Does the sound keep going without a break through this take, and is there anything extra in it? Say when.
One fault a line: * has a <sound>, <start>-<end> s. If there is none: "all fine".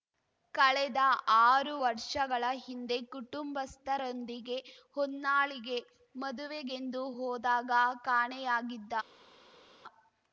all fine